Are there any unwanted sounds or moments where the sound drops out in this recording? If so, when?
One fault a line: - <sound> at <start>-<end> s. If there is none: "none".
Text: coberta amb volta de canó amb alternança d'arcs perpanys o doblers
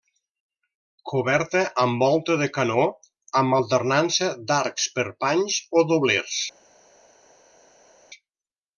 none